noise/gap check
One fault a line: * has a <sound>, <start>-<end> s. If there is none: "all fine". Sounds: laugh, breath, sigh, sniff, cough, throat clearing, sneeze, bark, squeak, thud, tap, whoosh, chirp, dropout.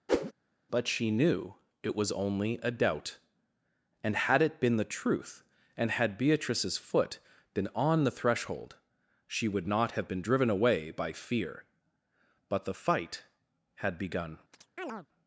* has a whoosh, 0.1-0.3 s
* has a chirp, 14.5-15.1 s